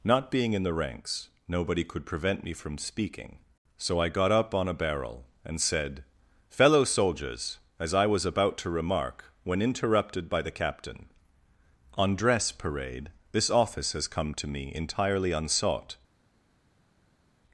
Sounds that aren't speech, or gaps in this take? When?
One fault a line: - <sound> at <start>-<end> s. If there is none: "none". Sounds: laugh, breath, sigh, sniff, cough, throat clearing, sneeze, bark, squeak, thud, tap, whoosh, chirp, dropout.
none